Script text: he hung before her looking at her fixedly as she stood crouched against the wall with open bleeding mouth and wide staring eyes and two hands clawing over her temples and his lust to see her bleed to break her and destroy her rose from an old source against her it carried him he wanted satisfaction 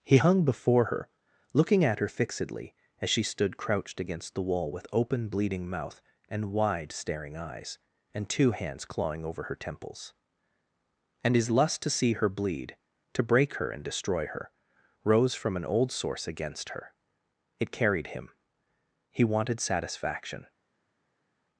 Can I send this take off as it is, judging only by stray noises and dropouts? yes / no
yes